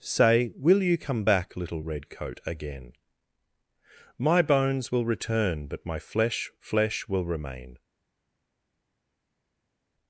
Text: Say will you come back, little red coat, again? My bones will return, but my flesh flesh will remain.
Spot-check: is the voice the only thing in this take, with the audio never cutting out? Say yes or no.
yes